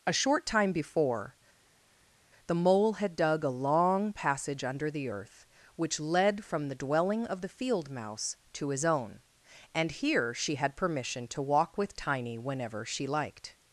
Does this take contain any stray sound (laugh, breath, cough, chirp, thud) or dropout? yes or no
no